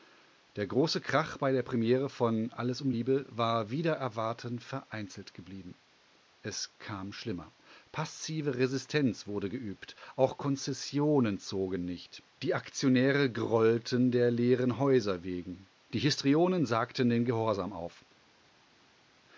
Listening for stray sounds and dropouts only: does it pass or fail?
pass